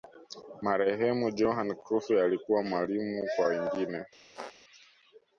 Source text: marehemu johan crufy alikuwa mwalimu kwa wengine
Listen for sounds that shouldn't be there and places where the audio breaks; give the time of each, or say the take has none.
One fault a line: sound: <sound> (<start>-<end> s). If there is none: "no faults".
sound: squeak (4.3-4.5 s)